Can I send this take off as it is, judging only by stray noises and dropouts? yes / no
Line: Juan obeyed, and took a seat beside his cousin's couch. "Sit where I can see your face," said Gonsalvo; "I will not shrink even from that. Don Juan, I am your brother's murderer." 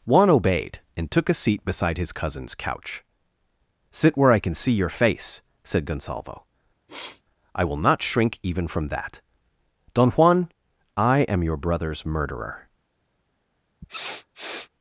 no